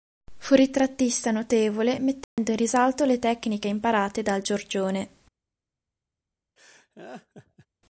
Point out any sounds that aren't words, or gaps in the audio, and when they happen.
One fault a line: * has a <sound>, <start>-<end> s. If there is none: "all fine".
* has a dropout, 2.2-2.4 s
* has a laugh, 6.6-7.7 s